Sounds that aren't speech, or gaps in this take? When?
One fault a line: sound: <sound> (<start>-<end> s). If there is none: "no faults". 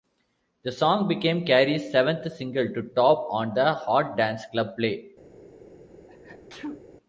sound: sneeze (6.1-6.8 s)